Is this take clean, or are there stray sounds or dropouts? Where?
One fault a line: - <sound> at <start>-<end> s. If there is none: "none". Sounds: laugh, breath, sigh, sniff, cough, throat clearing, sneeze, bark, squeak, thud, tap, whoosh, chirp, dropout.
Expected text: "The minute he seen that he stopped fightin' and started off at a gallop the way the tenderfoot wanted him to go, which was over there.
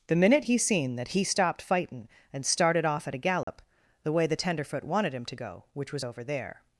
- dropout at 3.4-3.5 s